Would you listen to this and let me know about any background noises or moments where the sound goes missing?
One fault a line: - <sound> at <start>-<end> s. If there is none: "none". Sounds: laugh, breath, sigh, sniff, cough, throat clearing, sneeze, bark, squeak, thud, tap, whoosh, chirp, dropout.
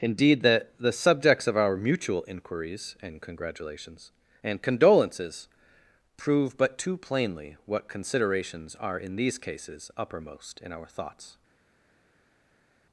none